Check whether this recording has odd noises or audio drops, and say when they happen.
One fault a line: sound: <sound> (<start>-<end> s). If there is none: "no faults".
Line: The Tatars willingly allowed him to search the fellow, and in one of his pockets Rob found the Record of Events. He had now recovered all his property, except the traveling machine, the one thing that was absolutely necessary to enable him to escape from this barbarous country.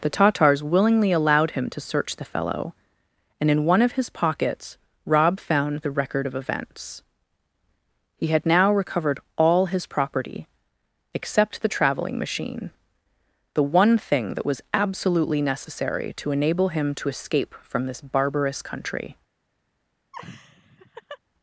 sound: laugh (20.1-21.2 s)